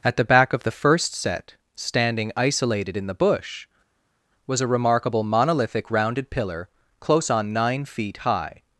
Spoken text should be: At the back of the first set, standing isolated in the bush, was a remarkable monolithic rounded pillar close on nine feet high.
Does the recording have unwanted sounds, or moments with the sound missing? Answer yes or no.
no